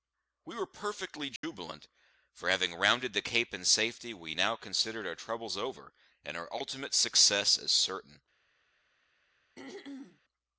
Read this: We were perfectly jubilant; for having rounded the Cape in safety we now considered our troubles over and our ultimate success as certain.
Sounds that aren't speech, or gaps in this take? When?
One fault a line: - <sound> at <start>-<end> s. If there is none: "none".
- dropout at 1.4-1.4 s
- throat clearing at 9.5-10.2 s